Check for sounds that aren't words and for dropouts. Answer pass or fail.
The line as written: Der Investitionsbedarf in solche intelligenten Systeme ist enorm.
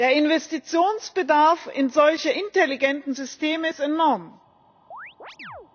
fail